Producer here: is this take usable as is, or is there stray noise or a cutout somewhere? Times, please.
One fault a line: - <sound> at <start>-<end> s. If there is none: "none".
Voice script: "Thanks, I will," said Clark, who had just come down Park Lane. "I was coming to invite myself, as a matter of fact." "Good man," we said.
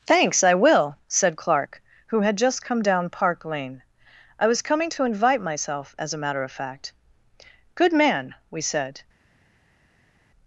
none